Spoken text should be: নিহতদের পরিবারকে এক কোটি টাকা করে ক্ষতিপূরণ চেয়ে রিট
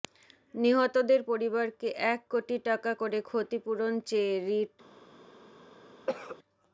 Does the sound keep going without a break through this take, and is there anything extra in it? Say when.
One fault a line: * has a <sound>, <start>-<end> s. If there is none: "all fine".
* has a cough, 6.1-6.4 s